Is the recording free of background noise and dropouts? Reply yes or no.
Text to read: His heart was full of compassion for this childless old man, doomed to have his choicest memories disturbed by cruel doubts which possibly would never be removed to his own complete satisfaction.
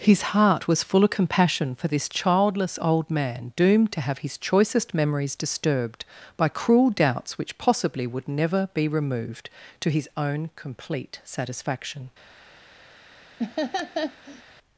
no